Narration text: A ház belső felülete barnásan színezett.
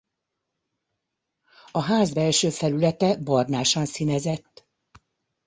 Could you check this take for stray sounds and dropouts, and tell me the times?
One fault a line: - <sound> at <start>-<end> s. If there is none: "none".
none